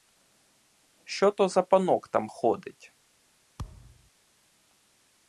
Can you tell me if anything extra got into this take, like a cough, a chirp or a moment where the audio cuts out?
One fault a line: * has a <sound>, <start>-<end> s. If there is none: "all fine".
* has a thud, 3.6-4.1 s